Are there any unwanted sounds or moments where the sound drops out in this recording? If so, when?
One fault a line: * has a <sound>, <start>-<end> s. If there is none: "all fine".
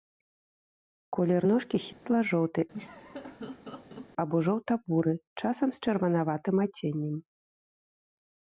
* has a dropout, 1.9-2.1 s
* has a laugh, 2.7-4.1 s